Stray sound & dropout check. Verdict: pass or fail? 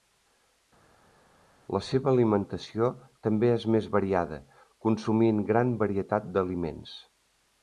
pass